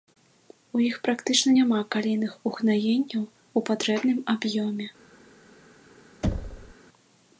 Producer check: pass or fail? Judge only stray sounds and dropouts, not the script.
fail